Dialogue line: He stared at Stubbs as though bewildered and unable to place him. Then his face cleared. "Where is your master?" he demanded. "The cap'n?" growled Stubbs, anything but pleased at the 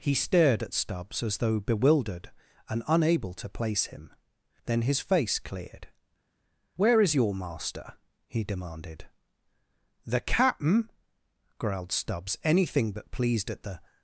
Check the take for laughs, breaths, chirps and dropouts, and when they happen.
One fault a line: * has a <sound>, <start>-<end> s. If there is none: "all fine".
all fine